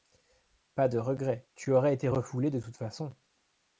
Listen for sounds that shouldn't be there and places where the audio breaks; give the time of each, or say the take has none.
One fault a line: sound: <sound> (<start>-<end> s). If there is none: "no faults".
no faults